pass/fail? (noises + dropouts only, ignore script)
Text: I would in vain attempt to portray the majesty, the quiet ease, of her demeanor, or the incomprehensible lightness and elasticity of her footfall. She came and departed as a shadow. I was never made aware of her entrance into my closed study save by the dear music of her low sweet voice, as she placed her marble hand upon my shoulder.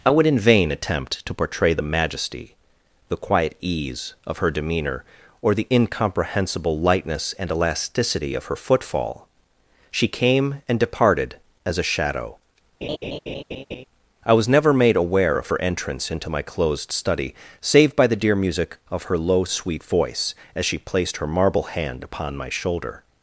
fail